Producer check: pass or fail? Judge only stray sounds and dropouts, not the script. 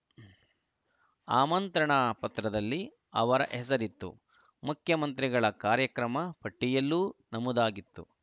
pass